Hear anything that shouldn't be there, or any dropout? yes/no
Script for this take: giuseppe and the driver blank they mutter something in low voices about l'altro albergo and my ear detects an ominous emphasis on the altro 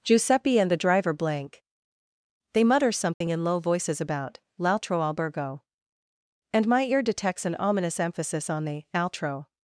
yes